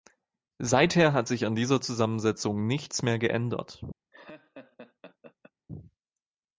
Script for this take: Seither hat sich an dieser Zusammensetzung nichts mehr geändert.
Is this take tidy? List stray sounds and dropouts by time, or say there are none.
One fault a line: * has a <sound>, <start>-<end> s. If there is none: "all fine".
* has a laugh, 4.1-5.5 s